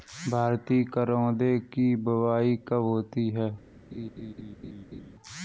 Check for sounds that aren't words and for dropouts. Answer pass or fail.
fail